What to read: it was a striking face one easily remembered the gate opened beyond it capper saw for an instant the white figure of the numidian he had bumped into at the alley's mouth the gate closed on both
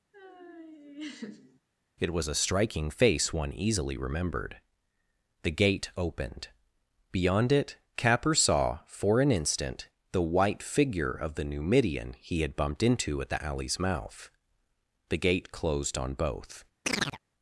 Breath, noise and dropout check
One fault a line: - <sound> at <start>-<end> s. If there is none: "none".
- laugh at 0.1-1.6 s
- chirp at 16.8-17.2 s